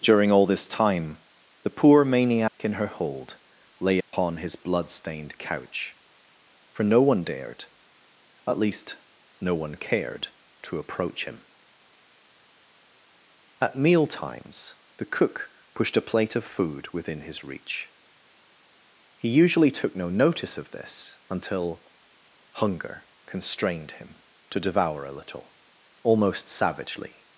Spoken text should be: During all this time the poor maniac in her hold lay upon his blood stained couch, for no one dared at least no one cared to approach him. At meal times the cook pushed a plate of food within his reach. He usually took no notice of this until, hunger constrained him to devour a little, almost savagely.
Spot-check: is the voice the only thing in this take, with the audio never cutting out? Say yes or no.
no